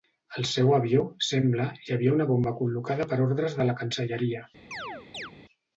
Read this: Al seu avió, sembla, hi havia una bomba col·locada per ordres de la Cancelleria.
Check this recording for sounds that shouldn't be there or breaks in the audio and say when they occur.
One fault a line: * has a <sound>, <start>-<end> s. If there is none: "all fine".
* has a chirp, 4.7-5.3 s